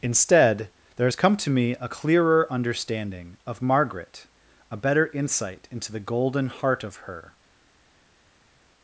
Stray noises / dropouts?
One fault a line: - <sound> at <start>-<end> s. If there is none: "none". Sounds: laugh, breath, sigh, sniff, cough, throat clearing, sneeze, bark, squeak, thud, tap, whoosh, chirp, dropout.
none